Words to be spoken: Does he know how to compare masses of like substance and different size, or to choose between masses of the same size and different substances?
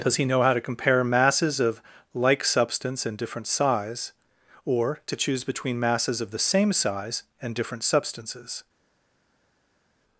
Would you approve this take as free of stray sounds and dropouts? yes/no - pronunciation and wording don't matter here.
yes